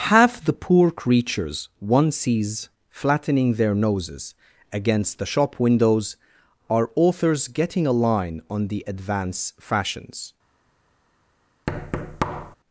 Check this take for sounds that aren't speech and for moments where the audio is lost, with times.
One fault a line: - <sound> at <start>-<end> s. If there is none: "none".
- thud at 11.7-12.6 s